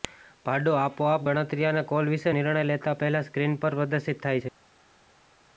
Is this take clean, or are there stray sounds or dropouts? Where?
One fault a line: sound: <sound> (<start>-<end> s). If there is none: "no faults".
no faults